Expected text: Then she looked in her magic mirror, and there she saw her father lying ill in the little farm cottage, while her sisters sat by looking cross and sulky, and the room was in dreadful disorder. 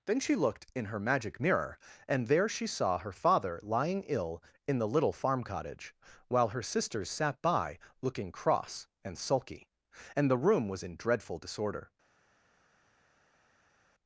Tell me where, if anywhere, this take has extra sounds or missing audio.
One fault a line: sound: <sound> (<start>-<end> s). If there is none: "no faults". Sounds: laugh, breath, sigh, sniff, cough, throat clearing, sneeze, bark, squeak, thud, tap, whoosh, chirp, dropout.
no faults